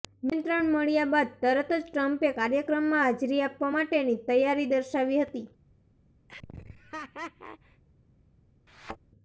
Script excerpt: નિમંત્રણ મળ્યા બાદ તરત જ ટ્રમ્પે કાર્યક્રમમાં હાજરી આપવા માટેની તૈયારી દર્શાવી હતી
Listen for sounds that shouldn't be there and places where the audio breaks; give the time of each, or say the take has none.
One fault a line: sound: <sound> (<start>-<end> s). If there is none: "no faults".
sound: laugh (6.3-7.8 s)
sound: thud (8.7-9.0 s)